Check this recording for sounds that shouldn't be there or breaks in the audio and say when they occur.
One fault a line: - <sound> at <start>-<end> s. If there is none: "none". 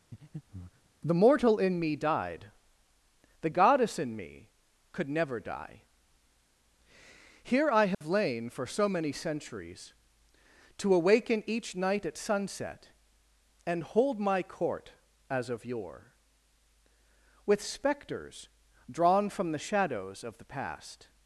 - breath at 0.1-0.9 s
- dropout at 7.9-8.0 s